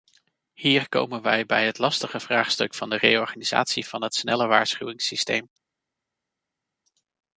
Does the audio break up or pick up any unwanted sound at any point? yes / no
no